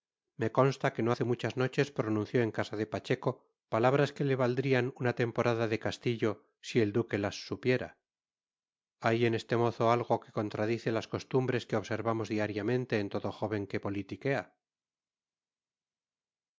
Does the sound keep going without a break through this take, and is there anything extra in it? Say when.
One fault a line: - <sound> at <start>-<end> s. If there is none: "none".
none